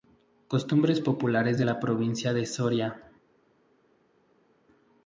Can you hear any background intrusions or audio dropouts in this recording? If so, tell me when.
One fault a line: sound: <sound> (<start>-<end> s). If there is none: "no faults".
no faults